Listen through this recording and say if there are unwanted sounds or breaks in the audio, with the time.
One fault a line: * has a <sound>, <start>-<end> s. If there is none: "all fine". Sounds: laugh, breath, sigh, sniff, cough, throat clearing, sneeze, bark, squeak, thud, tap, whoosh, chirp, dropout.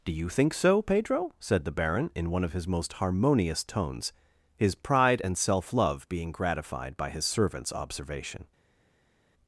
all fine